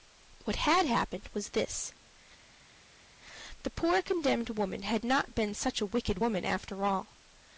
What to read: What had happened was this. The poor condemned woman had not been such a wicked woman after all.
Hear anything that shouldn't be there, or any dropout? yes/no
no